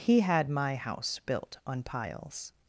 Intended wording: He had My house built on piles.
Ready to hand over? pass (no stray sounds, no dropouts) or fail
pass